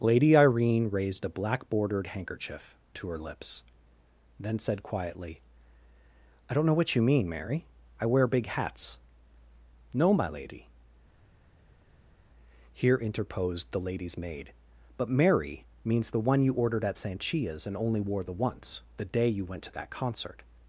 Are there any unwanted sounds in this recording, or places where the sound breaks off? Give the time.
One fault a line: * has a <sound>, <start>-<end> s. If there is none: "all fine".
all fine